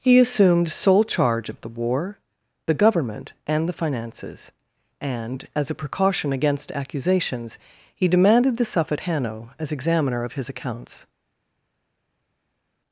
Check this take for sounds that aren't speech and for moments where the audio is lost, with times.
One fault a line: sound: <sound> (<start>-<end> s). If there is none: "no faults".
no faults